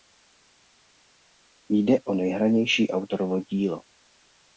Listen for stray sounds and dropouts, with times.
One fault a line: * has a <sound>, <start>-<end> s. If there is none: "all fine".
all fine